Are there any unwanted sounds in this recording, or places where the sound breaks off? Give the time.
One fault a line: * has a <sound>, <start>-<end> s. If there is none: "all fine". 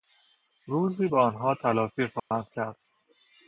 * has a dropout, 2.2-2.3 s